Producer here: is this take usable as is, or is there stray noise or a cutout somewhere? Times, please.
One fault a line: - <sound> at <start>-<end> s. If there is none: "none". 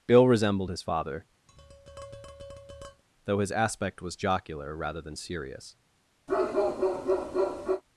- tap at 1.5-3.0 s
- bark at 6.3-7.8 s